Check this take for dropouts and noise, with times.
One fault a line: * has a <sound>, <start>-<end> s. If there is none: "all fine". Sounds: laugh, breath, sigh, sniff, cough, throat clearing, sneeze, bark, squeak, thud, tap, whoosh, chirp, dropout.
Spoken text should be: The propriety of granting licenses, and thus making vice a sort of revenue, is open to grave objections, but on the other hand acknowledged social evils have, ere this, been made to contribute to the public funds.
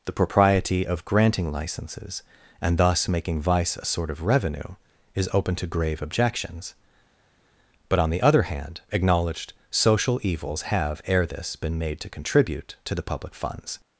all fine